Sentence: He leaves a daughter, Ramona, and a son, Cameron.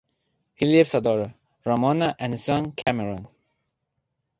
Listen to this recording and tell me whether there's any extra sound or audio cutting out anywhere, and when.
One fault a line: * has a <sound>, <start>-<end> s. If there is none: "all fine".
* has a dropout, 2.8-2.9 s